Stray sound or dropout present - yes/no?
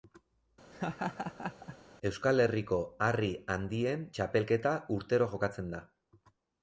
yes